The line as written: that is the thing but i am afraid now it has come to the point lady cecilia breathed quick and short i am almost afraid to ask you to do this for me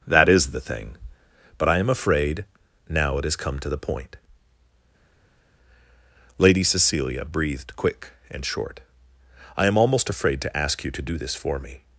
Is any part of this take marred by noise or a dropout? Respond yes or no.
no